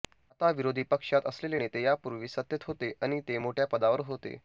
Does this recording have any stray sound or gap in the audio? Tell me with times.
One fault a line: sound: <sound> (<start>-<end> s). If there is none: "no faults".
no faults